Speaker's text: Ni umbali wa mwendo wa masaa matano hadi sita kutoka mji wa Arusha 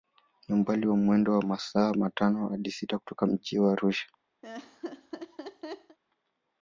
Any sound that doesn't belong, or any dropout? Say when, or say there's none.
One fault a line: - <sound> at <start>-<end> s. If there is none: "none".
- laugh at 4.4-6.0 s